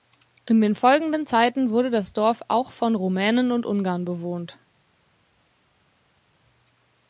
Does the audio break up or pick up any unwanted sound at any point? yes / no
no